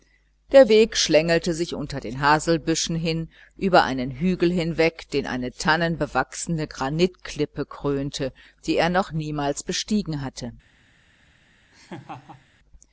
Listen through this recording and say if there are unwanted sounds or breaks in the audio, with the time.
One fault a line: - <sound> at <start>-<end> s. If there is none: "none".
- laugh at 11.7-12.5 s